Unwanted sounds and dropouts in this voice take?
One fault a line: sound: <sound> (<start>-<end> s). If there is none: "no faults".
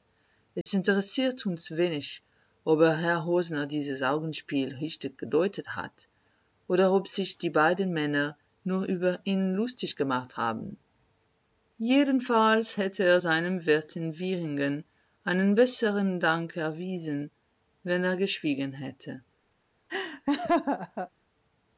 sound: dropout (0.6-0.7 s)
sound: laugh (19.9-21.1 s)